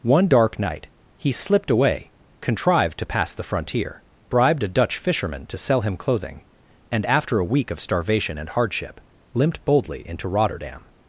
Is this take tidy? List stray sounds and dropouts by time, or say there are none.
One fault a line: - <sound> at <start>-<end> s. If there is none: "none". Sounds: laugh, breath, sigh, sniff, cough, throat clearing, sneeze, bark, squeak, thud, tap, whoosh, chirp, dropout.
none